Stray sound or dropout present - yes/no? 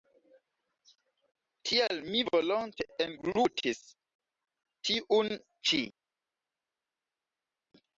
no